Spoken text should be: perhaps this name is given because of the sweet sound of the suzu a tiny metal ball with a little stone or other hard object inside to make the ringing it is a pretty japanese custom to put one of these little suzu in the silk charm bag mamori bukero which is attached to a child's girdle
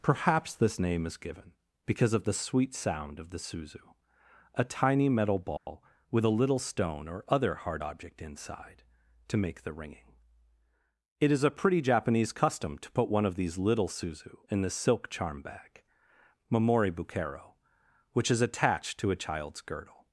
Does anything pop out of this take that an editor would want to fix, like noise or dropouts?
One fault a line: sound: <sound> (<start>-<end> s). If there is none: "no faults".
sound: dropout (5.6-5.7 s)